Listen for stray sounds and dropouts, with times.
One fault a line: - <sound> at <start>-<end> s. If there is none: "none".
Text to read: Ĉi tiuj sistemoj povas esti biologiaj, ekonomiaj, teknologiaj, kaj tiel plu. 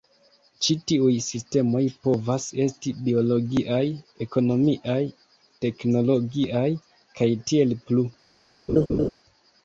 - laugh at 8.7-9.1 s